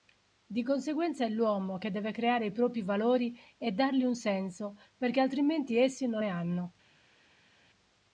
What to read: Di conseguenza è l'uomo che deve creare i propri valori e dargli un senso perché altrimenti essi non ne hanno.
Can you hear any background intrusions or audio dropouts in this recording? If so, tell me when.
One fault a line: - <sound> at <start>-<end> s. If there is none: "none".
none